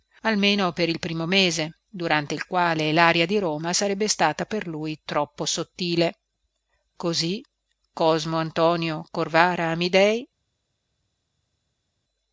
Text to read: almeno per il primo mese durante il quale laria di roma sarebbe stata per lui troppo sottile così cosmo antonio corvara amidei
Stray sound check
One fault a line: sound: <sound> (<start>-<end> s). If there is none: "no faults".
no faults